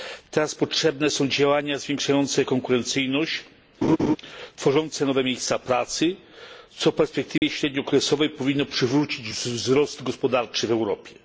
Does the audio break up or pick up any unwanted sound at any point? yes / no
yes